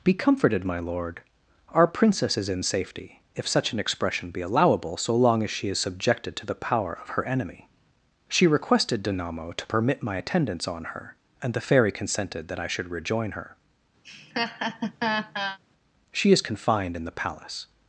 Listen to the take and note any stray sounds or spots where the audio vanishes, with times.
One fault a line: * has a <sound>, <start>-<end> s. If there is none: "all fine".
* has a laugh, 14.0-15.6 s